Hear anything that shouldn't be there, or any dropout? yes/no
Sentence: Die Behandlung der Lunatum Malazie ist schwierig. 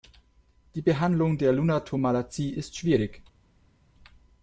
no